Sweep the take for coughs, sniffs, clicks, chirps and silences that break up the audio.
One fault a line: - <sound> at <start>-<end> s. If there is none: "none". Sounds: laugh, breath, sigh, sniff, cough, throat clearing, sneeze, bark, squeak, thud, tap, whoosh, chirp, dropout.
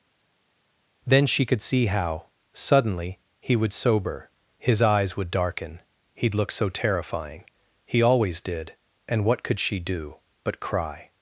none